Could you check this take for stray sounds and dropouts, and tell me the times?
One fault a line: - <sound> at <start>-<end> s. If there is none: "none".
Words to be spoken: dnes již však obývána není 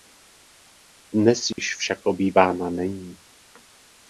- dropout at 1.5-1.6 s